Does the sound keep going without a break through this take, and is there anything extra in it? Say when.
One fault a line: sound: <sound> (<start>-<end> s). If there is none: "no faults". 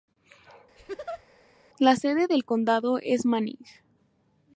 sound: laugh (0.8-1.2 s)